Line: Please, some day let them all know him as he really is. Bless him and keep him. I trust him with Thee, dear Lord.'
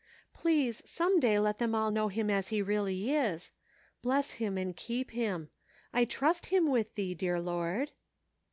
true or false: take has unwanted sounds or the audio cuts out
false